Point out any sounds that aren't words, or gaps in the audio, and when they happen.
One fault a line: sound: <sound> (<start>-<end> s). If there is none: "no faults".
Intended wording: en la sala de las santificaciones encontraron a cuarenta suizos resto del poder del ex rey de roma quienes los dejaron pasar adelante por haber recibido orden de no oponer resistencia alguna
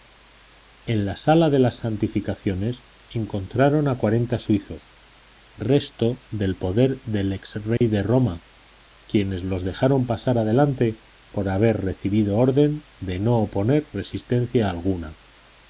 sound: dropout (7.8-7.8 s)